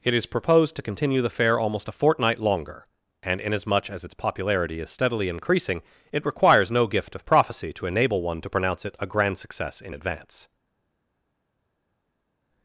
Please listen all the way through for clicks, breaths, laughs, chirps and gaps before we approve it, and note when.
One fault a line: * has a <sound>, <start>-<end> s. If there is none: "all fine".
all fine